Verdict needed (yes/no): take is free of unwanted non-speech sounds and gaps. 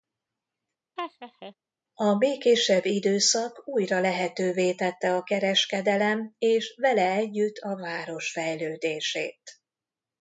no